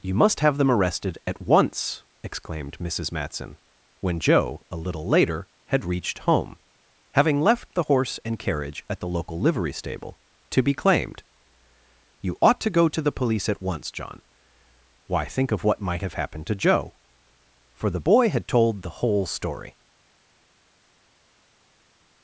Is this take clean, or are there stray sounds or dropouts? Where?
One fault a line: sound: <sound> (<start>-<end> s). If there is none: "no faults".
no faults